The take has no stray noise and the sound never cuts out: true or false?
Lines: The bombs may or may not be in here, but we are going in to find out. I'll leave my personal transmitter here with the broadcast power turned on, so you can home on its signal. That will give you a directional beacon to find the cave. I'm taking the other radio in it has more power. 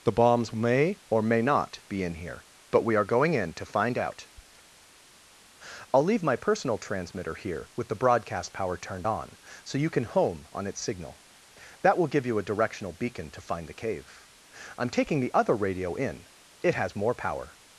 true